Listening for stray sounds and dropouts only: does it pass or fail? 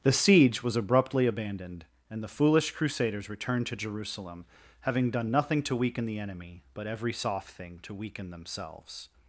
pass